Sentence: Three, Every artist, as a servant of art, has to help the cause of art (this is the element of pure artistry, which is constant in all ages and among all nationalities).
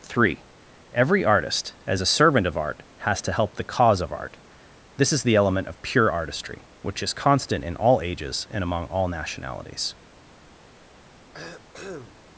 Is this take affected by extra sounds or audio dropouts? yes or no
yes